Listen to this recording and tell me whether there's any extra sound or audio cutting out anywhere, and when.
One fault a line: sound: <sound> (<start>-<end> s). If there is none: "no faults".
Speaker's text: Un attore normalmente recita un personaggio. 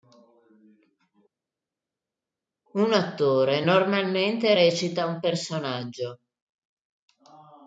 no faults